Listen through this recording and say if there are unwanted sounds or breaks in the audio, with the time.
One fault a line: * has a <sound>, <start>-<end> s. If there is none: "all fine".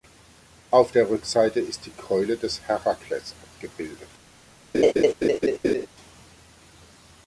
* has a laugh, 4.7-5.9 s